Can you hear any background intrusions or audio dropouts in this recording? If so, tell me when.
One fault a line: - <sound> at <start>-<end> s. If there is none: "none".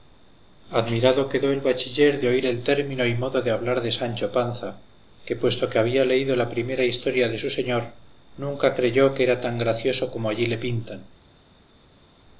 none